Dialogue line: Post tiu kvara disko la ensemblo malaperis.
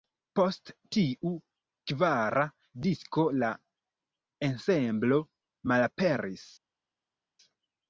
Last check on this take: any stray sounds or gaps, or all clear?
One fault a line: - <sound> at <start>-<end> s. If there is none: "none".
none